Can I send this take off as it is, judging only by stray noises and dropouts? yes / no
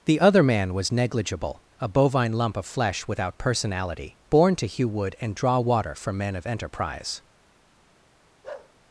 no